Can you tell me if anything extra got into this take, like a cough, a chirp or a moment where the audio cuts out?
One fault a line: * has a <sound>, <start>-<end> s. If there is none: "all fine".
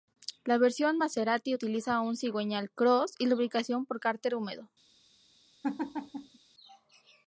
* has a laugh, 5.6-6.4 s